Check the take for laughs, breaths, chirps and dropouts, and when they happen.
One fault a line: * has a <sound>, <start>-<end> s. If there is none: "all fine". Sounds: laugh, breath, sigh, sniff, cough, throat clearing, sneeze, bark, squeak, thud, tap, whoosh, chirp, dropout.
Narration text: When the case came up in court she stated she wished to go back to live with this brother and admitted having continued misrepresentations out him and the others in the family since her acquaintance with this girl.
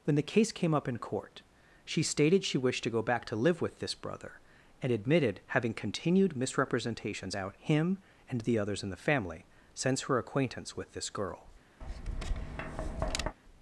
* has a tap, 11.8-13.4 s